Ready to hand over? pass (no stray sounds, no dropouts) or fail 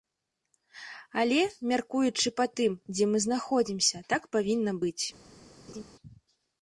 fail